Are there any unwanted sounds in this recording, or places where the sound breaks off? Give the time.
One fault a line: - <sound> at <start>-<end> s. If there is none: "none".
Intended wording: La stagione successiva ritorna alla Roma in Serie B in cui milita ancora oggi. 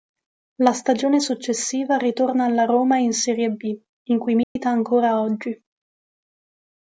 - dropout at 4.4-4.6 s